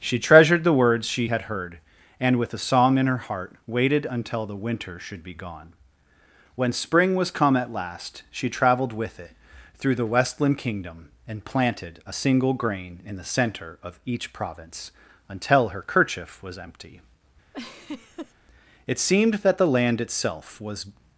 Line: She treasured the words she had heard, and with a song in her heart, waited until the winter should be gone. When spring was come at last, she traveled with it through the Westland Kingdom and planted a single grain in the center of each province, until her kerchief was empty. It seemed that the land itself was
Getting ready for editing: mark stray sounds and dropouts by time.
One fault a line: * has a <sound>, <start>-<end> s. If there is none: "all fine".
* has a laugh, 17.5-18.3 s